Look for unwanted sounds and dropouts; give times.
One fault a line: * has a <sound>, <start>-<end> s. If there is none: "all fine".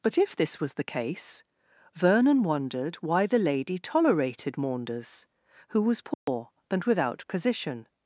* has a dropout, 6.1-6.3 s